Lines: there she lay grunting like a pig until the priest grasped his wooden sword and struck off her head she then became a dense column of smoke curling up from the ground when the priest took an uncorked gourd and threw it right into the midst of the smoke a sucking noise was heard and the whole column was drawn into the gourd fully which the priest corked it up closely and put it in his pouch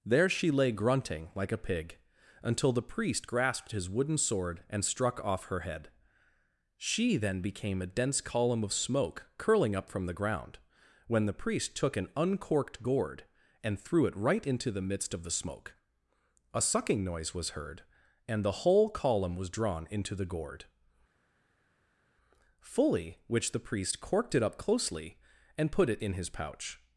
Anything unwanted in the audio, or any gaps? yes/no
no